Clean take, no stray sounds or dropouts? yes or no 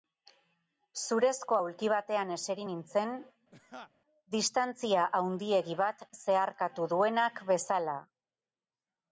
no